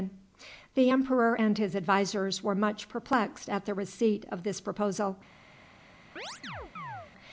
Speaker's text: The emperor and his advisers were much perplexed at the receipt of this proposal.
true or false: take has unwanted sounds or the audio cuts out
true